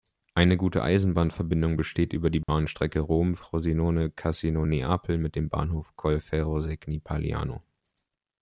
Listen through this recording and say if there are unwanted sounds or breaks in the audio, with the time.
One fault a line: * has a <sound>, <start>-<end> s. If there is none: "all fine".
* has a dropout, 2.4-2.5 s